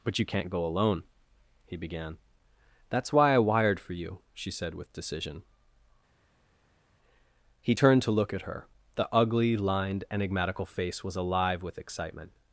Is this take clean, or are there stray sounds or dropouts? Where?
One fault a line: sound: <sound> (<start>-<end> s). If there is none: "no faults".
no faults